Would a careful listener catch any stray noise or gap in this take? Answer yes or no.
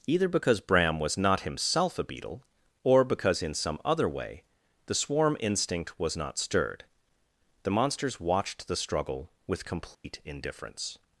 yes